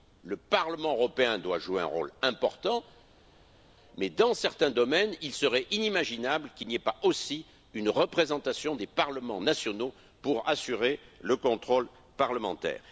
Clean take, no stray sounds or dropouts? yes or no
yes